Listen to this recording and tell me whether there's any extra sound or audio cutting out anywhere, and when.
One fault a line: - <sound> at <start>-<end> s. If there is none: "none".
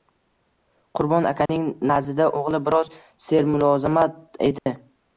- dropout at 1.5-1.5 s
- dropout at 4.6-4.7 s